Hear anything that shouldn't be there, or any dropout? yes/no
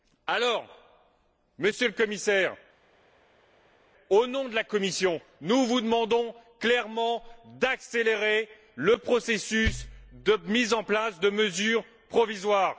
no